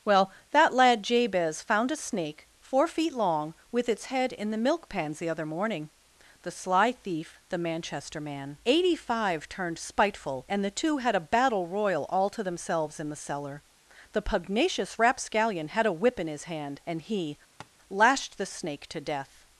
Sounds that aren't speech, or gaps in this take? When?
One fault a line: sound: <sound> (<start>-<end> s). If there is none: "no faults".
sound: tap (17.6-17.7 s)